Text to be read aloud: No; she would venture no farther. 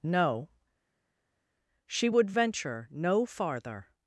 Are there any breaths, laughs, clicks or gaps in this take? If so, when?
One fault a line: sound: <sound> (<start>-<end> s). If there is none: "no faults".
no faults